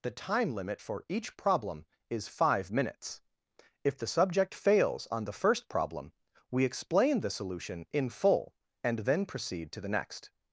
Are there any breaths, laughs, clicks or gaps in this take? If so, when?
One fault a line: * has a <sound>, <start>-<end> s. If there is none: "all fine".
all fine